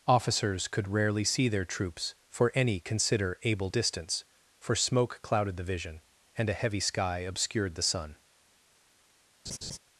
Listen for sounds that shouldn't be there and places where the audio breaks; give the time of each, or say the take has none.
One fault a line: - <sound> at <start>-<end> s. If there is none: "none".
- laugh at 9.5-9.8 s